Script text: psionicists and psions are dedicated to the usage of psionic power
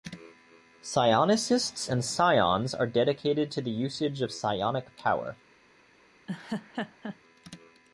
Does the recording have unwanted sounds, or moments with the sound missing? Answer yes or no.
yes